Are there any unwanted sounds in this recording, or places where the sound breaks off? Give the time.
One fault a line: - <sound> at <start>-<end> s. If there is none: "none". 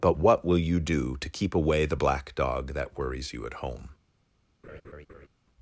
- laugh at 4.6-5.3 s